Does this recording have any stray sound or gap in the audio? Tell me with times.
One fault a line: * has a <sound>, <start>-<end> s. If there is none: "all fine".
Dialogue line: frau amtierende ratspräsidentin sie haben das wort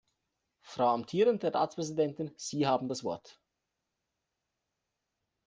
all fine